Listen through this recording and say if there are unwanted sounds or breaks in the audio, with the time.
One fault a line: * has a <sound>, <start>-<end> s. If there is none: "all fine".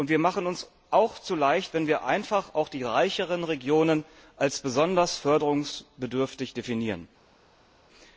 all fine